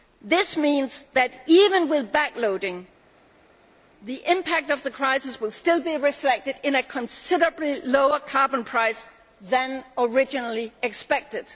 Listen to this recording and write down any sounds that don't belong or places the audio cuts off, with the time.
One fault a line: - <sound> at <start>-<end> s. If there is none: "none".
none